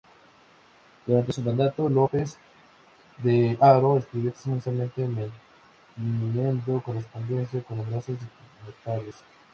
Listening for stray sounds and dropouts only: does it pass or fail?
pass